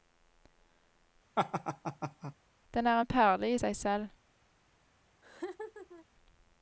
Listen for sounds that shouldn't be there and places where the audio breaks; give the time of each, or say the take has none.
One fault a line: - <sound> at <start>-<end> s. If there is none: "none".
- laugh at 1.4-2.3 s
- laugh at 5.2-6.1 s